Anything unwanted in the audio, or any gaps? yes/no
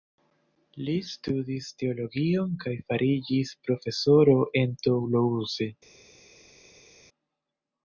no